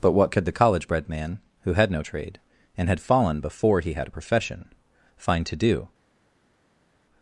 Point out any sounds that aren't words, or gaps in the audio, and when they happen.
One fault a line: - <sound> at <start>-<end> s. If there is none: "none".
none